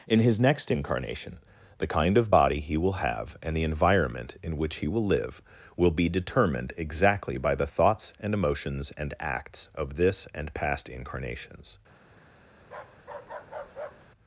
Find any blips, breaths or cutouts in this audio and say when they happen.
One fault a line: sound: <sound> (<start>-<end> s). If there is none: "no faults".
sound: bark (12.6-14.1 s)